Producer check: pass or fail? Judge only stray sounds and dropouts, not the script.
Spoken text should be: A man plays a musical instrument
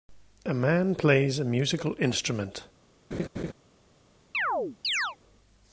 fail